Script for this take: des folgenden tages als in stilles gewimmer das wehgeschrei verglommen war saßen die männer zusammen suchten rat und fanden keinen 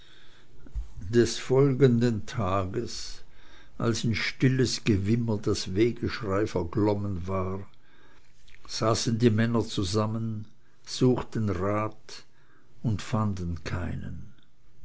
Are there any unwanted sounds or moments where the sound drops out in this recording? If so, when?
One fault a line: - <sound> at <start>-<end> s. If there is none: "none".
none